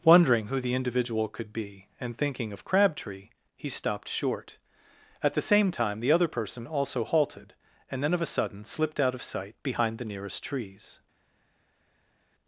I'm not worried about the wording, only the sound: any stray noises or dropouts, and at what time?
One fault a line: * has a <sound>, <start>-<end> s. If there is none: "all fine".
all fine